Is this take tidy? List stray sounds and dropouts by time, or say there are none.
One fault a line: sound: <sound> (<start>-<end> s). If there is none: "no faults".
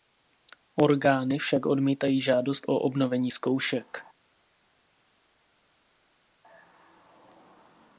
no faults